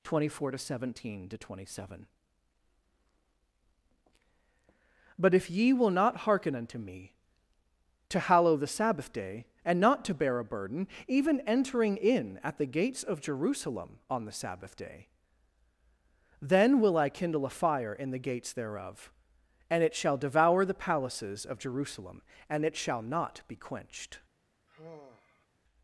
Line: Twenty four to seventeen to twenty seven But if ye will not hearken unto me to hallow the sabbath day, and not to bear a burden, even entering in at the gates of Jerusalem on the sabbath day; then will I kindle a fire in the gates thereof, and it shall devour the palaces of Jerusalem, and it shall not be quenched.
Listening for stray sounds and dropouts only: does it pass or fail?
fail